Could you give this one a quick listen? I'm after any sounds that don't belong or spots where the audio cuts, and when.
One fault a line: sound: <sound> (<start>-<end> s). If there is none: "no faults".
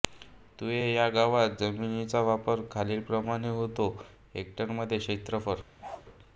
sound: bark (5.8-6.1 s)